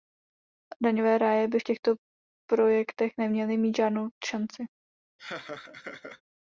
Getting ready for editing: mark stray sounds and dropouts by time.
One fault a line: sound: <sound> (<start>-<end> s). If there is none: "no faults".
sound: laugh (5.2-6.2 s)